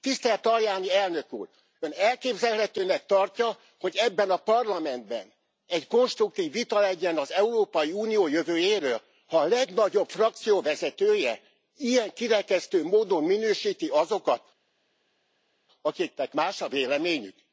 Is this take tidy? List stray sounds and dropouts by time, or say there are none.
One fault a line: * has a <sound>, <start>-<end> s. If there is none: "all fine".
all fine